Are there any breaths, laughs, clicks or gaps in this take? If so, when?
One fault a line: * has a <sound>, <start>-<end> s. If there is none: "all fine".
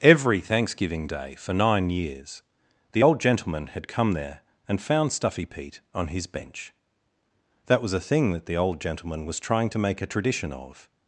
all fine